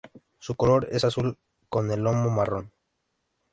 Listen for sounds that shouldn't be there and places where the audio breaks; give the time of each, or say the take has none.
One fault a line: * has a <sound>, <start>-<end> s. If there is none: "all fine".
all fine